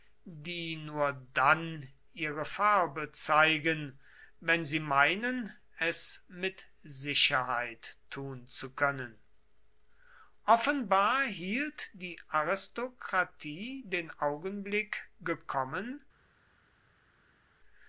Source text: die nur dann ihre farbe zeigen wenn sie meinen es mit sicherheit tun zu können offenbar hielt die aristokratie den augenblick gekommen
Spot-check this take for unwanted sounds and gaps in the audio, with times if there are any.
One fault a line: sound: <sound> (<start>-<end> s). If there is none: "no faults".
no faults